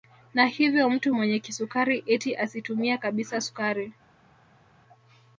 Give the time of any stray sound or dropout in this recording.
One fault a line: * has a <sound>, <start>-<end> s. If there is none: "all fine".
all fine